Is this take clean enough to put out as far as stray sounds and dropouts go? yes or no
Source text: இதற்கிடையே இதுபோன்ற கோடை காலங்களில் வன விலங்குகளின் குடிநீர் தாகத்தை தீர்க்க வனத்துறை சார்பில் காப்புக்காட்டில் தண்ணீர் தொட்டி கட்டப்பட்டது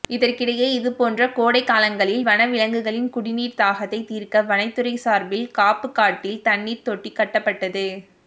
yes